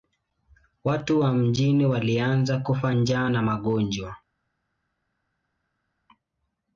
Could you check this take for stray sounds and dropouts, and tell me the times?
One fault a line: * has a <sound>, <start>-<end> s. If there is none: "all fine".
all fine